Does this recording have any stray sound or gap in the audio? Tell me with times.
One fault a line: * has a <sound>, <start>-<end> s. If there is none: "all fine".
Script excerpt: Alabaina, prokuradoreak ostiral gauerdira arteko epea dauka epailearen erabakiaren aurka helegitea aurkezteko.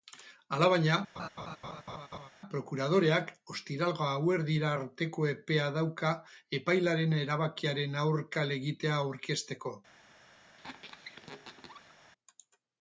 * has a laugh, 1.2-2.3 s
* has a squeak, 10.6-12.0 s